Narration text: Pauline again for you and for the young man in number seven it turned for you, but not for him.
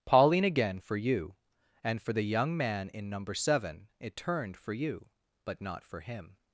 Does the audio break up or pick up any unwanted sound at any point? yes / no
no